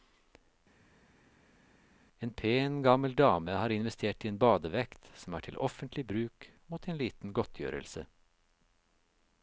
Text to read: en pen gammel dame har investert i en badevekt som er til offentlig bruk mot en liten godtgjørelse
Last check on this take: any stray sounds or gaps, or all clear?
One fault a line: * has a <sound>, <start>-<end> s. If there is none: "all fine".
all fine